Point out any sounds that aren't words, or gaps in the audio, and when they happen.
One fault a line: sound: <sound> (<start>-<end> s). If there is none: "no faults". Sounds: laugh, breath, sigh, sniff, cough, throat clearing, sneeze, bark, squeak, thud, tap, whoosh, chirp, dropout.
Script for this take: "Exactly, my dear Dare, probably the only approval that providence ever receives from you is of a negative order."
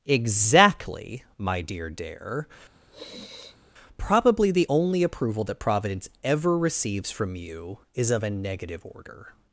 sound: sniff (2.7-3.7 s)